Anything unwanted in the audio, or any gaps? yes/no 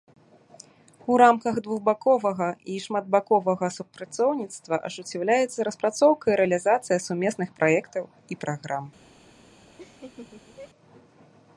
yes